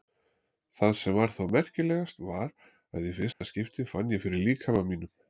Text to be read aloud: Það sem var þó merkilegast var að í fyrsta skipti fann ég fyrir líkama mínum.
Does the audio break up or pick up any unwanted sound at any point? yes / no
yes